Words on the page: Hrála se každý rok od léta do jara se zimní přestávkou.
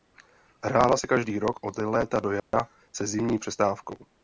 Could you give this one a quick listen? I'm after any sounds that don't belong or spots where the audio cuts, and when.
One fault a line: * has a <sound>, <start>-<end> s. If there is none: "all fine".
* has a dropout, 2.4-2.5 s